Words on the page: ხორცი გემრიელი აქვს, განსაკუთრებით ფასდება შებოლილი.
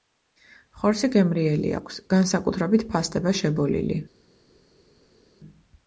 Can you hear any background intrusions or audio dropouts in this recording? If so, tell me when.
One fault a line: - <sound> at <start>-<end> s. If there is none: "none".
none